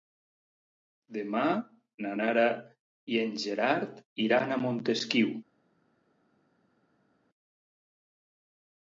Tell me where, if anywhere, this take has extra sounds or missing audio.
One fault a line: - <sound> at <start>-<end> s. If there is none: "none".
none